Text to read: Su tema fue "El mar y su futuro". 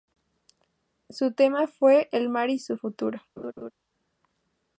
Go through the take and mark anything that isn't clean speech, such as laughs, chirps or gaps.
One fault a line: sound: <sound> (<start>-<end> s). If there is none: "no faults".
sound: laugh (3.4-3.7 s)